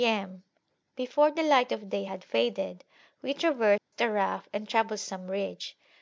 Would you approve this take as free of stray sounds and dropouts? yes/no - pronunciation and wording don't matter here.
no